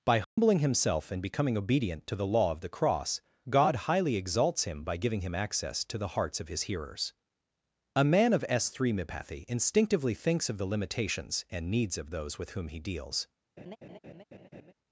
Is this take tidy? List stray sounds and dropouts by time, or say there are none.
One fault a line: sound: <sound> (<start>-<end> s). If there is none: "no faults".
sound: dropout (0.2-0.4 s)
sound: laugh (13.6-14.7 s)